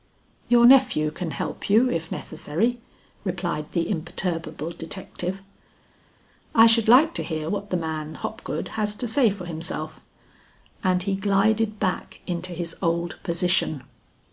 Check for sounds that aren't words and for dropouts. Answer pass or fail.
pass